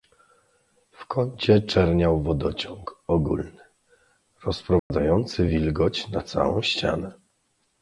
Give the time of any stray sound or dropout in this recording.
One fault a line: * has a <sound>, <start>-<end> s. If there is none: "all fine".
* has a dropout, 4.8-4.9 s